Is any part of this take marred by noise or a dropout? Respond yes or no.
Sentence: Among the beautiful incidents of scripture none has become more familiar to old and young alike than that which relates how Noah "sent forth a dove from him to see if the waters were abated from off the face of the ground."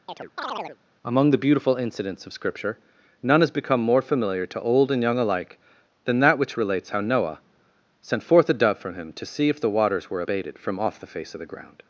yes